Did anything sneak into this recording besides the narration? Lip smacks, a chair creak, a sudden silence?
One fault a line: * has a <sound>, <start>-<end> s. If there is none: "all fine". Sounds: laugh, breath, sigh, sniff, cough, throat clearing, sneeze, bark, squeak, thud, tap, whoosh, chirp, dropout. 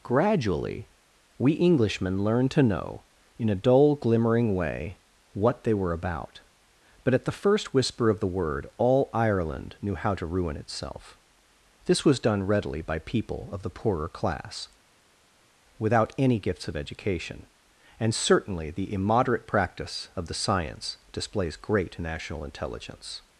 all fine